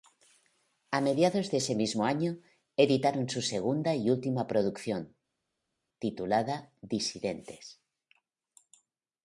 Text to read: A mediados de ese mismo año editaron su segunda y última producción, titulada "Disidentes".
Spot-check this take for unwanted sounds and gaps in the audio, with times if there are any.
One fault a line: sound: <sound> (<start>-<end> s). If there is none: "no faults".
no faults